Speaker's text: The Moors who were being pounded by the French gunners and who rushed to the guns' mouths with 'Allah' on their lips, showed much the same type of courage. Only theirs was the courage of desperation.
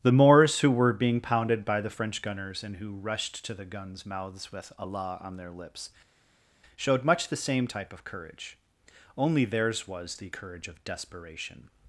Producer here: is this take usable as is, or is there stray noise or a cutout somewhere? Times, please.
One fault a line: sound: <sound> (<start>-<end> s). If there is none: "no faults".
no faults